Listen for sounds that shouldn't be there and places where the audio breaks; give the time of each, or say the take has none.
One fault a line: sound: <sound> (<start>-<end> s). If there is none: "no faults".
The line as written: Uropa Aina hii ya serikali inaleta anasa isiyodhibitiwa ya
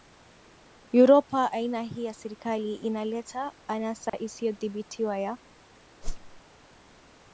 sound: dropout (4.1-4.1 s)
sound: whoosh (6.0-6.4 s)